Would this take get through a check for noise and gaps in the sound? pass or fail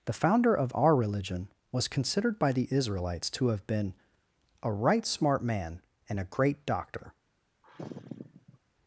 fail